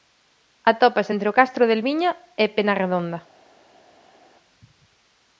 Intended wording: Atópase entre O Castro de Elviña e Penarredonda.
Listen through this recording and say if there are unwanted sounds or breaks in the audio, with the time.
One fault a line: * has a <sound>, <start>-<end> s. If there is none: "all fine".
all fine